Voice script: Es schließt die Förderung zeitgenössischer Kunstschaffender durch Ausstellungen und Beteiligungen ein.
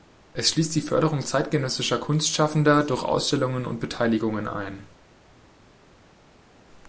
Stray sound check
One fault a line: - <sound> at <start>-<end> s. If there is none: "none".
none